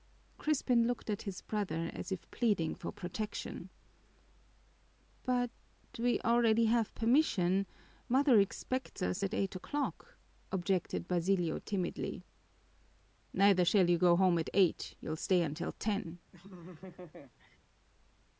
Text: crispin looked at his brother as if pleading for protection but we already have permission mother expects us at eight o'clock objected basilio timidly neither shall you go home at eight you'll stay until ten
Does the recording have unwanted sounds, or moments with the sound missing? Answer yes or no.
yes